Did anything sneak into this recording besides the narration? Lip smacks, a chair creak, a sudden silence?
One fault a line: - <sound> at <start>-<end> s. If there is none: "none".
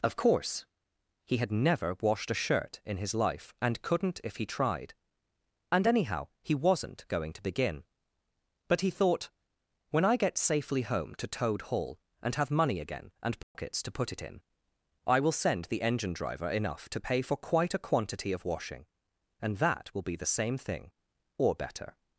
- dropout at 13.4-13.5 s